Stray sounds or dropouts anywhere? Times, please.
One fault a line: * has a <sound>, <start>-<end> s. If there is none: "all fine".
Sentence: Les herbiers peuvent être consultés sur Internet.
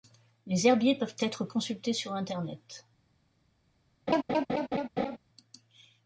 * has a laugh, 4.1-5.2 s